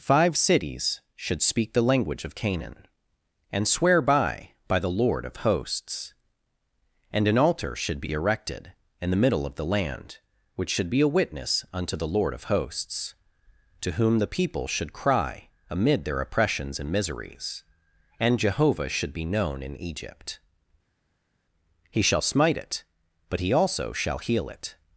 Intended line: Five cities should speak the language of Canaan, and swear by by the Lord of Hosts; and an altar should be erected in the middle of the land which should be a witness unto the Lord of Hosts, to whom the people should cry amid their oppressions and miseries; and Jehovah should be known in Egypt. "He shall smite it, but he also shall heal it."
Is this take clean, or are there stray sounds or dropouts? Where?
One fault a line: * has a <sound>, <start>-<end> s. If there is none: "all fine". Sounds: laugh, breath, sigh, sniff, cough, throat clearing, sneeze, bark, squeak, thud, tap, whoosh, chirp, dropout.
all fine